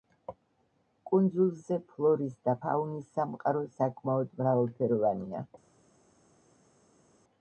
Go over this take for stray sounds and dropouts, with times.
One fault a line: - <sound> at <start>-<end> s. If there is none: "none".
none